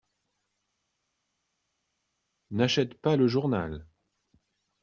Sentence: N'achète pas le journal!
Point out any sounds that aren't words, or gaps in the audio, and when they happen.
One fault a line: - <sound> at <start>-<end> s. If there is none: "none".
none